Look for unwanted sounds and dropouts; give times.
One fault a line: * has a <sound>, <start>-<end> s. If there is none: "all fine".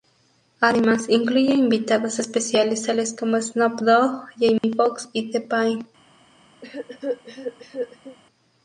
* has a dropout, 4.6-4.6 s
* has a cough, 6.6-8.2 s